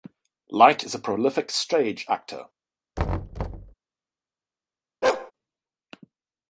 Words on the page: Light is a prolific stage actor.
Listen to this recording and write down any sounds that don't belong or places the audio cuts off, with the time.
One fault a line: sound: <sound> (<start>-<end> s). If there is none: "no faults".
sound: thud (3.0-3.7 s)
sound: bark (5.0-5.3 s)